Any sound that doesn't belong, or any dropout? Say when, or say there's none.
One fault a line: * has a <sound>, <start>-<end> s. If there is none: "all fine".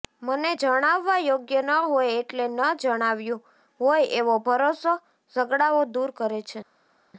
all fine